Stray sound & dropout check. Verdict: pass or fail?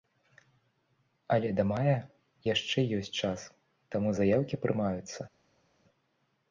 pass